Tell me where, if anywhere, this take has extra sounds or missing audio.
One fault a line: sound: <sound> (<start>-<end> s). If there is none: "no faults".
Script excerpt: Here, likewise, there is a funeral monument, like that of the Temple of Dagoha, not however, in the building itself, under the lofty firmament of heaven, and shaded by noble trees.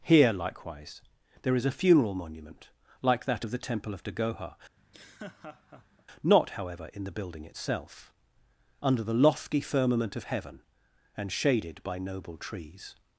sound: laugh (4.8-6.1 s)